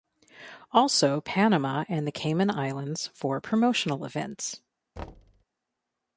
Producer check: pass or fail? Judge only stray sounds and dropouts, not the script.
fail